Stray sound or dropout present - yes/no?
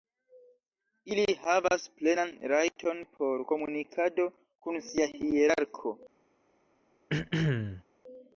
yes